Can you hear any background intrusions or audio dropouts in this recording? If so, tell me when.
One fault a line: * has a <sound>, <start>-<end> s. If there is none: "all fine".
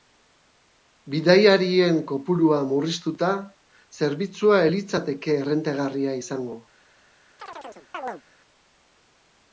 * has a chirp, 7.4-8.2 s